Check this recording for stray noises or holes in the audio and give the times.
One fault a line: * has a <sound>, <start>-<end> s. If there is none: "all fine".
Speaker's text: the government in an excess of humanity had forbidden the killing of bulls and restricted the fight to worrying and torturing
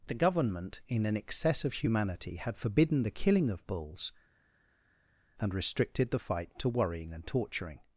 all fine